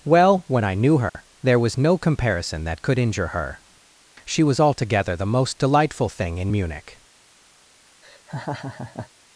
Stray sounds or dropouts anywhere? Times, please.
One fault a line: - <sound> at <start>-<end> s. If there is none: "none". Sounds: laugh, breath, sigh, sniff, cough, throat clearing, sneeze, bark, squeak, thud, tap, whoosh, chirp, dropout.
- dropout at 1.1-1.1 s
- laugh at 8.0-9.1 s